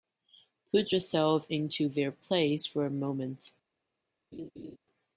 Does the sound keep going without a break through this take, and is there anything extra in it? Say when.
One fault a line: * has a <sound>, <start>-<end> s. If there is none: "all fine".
* has a laugh, 4.3-4.8 s